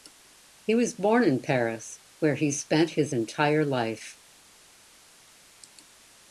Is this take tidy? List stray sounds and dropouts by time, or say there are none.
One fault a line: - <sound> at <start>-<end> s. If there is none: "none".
none